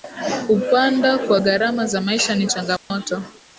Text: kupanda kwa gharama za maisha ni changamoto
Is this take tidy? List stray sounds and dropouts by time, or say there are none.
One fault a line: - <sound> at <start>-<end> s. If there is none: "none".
- dropout at 2.8-2.9 s